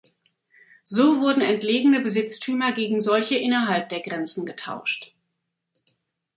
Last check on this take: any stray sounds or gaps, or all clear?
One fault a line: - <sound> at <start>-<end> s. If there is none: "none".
none